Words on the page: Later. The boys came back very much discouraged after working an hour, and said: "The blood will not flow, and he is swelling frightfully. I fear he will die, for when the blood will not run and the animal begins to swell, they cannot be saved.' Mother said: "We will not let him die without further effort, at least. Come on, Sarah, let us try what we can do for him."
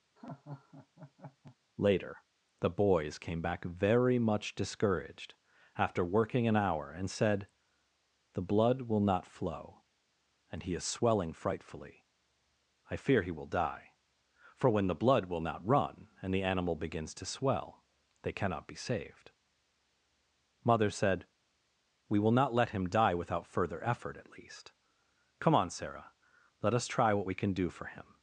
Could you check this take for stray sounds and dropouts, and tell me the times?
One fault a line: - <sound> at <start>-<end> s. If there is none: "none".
- laugh at 0.2-1.6 s